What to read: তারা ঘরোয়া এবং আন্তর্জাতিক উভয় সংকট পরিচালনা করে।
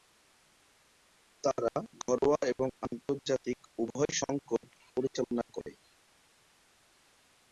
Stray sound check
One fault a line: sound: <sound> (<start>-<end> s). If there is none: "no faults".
no faults